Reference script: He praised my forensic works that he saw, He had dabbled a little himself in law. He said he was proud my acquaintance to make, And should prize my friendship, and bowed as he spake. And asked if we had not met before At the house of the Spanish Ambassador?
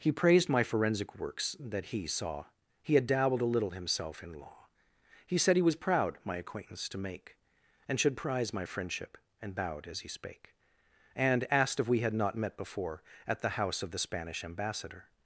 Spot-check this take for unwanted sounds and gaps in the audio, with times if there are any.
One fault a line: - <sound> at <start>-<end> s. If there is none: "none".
none